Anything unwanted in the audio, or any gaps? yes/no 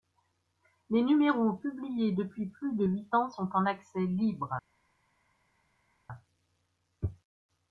no